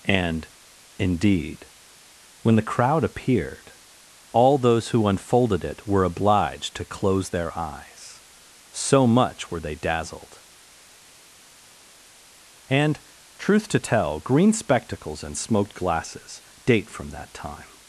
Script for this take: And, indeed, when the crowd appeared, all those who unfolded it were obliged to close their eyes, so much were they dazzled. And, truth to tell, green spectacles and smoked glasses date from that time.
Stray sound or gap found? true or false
false